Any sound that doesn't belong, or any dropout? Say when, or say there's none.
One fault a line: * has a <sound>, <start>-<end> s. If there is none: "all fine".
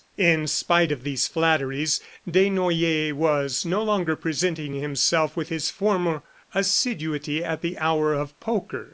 all fine